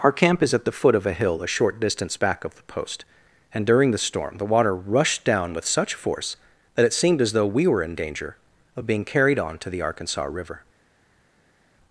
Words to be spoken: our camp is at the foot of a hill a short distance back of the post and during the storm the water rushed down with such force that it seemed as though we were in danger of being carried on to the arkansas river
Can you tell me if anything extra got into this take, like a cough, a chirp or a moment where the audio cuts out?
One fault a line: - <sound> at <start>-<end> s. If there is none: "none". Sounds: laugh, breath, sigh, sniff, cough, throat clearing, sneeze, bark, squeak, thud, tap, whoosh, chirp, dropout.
none